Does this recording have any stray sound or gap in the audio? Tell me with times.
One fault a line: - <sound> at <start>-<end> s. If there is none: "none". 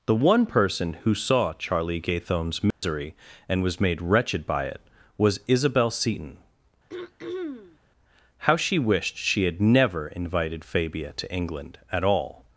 - dropout at 2.7-2.8 s
- throat clearing at 6.9-7.8 s